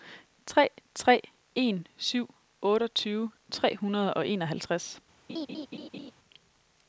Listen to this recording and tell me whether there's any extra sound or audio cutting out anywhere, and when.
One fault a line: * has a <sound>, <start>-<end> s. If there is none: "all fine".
* has a laugh, 5.3-6.1 s